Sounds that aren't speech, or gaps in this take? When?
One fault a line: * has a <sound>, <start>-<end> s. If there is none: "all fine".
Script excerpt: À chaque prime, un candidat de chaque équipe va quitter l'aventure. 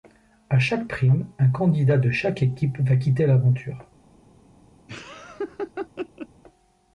* has a laugh, 4.9-6.3 s